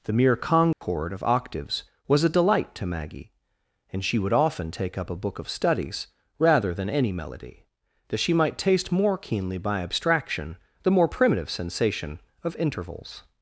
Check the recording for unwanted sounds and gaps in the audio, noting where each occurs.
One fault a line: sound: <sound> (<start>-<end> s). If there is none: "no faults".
sound: dropout (0.7-0.8 s)